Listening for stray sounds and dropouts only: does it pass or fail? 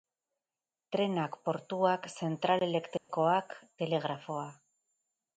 fail